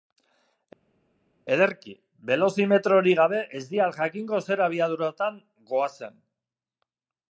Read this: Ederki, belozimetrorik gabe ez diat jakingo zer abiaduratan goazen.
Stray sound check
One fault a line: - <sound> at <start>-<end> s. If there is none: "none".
none